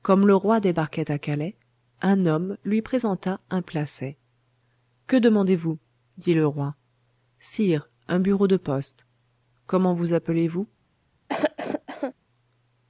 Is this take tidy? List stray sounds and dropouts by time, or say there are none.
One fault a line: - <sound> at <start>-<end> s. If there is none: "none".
- cough at 11.3-12.1 s